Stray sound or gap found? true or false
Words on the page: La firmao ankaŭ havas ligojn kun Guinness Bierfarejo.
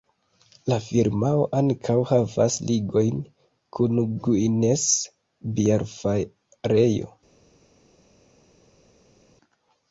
false